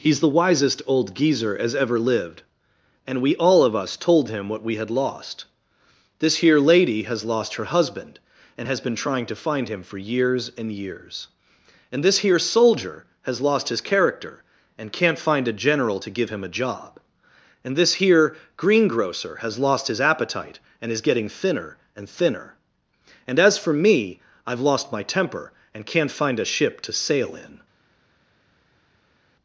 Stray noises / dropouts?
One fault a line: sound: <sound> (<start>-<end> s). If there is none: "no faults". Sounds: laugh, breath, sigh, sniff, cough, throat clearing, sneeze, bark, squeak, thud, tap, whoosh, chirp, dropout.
no faults